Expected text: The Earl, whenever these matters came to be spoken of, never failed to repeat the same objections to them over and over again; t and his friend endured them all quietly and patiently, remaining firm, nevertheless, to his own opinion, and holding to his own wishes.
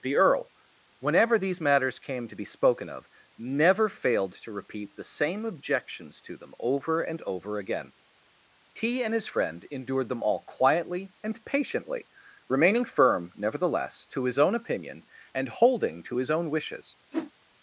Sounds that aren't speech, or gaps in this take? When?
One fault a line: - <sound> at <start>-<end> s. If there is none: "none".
- whoosh at 17.1-17.3 s